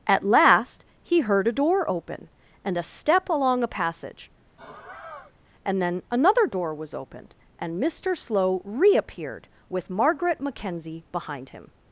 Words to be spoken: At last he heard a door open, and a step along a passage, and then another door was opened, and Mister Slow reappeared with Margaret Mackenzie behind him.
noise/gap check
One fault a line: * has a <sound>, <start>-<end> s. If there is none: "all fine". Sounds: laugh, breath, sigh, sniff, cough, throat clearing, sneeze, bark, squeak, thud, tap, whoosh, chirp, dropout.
* has a sigh, 4.6-5.3 s